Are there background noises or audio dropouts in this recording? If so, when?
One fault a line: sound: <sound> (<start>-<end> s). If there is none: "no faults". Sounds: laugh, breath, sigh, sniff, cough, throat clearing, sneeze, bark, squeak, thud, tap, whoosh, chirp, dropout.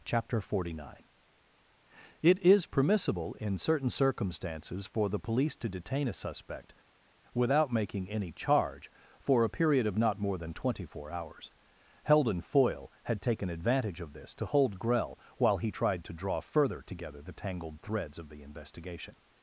no faults